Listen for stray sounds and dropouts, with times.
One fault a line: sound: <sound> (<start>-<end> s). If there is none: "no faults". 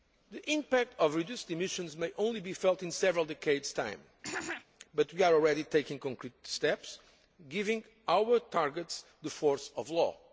sound: throat clearing (4.2-4.7 s)